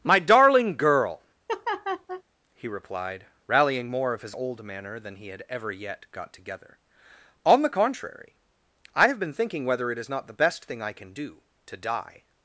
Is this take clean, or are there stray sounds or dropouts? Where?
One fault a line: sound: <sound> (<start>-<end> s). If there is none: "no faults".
sound: laugh (1.5-2.2 s)